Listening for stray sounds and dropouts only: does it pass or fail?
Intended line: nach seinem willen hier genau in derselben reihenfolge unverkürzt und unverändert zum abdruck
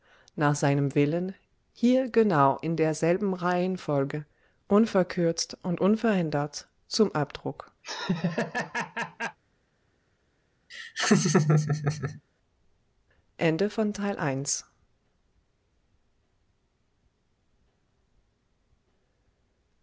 fail